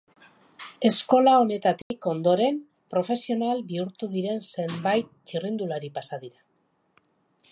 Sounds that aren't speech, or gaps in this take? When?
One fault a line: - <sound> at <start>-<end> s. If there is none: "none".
- dropout at 1.8-1.9 s